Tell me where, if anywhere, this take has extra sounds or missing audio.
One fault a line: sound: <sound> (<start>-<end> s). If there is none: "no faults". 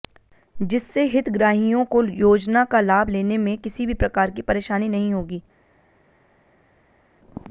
no faults